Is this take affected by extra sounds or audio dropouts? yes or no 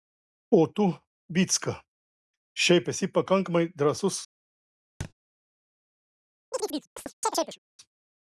yes